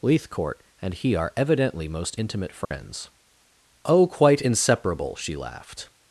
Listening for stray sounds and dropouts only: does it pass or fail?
fail